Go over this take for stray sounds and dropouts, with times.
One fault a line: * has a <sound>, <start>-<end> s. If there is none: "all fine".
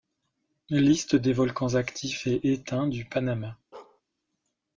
* has a bark, 3.7-4.0 s